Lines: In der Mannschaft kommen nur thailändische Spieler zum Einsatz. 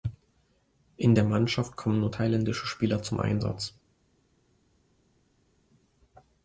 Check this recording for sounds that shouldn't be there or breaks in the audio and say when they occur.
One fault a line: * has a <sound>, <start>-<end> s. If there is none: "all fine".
all fine